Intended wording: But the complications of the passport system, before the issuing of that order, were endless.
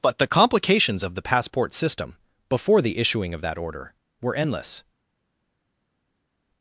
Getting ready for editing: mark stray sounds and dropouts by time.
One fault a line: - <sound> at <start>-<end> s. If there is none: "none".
none